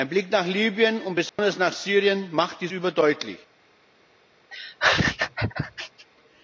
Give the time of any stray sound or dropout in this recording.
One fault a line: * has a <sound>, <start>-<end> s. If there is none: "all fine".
* has a dropout, 1.3-1.4 s
* has a laugh, 4.5-6.1 s